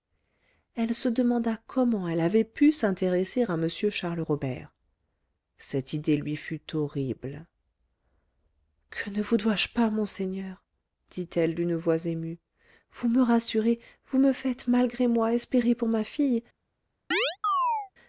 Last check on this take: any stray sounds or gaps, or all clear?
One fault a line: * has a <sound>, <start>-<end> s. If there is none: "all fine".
* has a chirp, 17.1-17.9 s